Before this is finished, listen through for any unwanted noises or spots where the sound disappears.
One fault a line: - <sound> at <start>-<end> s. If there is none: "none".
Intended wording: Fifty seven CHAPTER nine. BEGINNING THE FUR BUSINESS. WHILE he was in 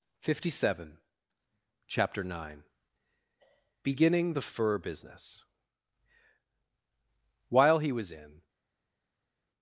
none